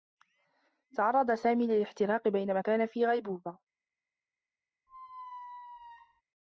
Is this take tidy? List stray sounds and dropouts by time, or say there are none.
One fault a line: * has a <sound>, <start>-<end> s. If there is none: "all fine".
* has a squeak, 4.9-6.2 s